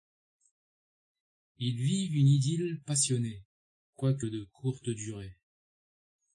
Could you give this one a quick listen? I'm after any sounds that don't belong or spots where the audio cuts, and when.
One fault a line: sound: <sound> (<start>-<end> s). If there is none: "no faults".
no faults